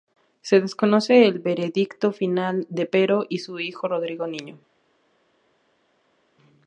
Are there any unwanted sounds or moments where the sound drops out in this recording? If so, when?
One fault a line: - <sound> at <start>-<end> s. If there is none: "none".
none